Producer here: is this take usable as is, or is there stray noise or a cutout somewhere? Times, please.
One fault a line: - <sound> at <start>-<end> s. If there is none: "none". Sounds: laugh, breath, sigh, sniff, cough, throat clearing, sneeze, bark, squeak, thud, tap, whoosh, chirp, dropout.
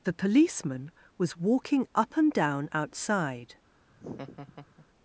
- laugh at 3.9-4.9 s